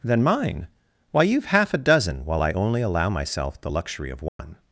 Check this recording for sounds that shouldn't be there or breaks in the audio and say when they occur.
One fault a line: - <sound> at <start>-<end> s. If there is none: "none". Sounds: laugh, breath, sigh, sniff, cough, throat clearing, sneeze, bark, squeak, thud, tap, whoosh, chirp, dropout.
- dropout at 4.3-4.4 s